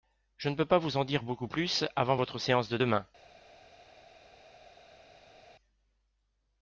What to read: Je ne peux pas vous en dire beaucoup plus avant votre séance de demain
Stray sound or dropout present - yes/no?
no